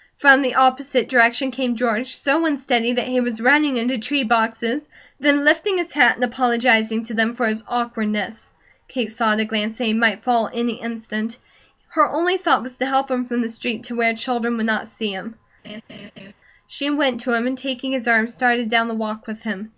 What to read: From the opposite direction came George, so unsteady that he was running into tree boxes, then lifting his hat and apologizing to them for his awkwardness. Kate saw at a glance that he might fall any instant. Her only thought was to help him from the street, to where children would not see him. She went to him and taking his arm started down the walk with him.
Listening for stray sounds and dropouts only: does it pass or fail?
fail